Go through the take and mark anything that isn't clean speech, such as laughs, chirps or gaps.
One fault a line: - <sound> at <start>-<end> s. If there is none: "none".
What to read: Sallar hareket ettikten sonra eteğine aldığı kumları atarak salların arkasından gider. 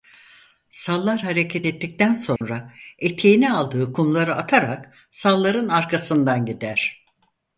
- dropout at 2.4-2.4 s